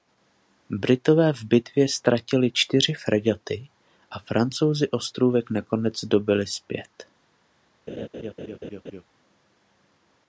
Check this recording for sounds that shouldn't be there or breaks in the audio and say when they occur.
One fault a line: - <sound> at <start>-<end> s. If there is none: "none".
- laugh at 7.9-9.0 s